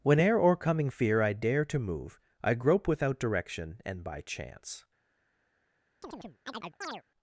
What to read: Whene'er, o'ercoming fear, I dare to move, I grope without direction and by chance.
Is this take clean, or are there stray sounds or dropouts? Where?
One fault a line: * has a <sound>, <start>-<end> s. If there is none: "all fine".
* has a chirp, 6.0-7.0 s